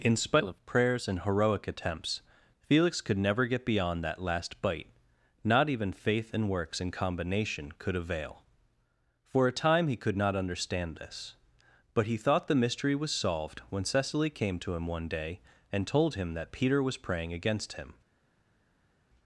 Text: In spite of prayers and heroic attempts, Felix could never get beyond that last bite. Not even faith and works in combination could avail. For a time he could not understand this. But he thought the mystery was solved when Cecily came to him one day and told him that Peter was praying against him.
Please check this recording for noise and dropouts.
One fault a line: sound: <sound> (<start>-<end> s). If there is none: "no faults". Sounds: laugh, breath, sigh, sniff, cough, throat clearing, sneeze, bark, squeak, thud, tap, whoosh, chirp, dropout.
no faults